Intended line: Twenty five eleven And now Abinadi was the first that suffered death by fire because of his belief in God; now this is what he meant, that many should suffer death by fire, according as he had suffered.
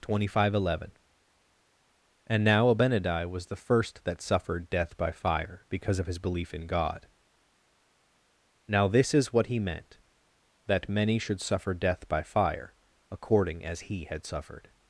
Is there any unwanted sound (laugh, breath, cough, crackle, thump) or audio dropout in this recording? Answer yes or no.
no